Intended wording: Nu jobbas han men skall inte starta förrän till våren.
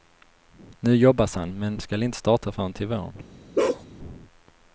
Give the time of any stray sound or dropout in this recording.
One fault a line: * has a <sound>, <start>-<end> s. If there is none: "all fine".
* has a bark, 3.6-3.9 s